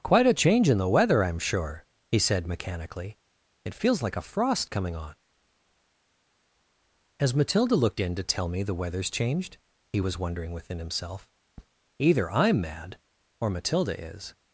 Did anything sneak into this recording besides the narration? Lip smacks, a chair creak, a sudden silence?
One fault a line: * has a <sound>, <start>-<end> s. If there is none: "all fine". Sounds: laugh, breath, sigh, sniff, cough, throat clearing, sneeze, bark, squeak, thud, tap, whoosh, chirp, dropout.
all fine